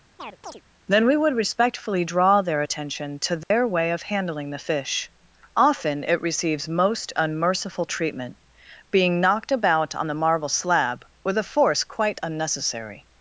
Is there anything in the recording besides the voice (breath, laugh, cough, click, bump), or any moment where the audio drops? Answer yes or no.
yes